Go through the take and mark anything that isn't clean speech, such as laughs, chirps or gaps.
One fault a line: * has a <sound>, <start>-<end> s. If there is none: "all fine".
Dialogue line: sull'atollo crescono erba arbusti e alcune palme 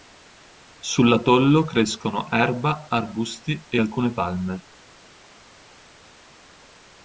all fine